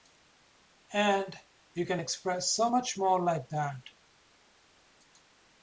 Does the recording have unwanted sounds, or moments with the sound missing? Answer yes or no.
no